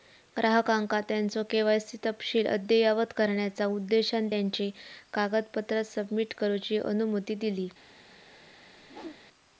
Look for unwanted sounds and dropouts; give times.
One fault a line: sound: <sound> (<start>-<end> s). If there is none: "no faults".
sound: whoosh (8.8-9.2 s)